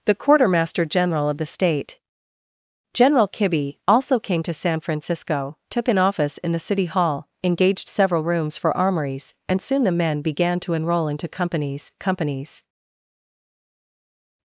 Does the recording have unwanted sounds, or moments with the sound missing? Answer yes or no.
no